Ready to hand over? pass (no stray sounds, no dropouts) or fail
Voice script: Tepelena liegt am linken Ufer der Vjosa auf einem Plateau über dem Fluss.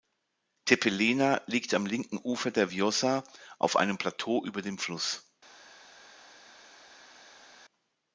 pass